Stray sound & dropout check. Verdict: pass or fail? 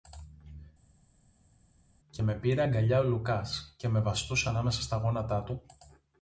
pass